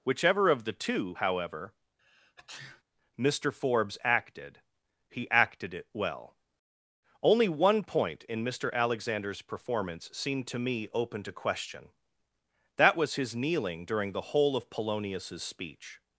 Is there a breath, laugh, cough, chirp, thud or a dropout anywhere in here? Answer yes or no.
yes